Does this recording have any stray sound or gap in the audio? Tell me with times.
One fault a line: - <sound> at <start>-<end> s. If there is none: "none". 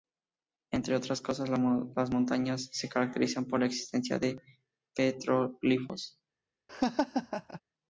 - laugh at 6.7-7.6 s